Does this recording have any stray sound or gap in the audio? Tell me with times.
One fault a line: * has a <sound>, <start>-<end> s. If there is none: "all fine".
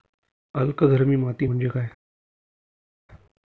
all fine